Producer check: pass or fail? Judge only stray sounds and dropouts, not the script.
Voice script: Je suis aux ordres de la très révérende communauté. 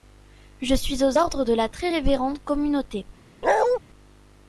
fail